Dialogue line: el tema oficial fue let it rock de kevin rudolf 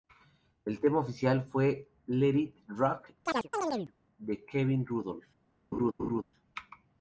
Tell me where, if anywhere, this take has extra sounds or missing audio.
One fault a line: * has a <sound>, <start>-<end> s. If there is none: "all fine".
* has a chirp, 3.3-3.9 s
* has a laugh, 5.7-6.2 s